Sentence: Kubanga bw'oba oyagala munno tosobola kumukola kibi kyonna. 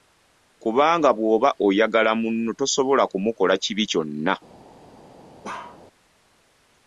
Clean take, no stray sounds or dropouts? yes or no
no